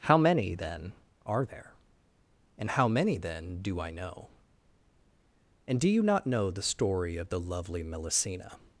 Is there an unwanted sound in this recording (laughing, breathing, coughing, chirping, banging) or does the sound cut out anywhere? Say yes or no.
no